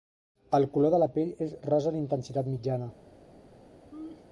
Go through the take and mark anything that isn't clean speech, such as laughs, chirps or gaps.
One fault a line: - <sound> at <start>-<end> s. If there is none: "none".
- laugh at 3.9-4.3 s